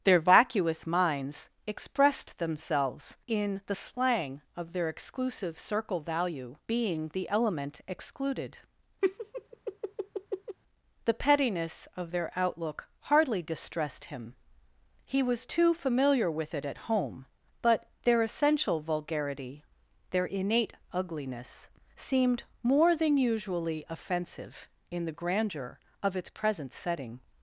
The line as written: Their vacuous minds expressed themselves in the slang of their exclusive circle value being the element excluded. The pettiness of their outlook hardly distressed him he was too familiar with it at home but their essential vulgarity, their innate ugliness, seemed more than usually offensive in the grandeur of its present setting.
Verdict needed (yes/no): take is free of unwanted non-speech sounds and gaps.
no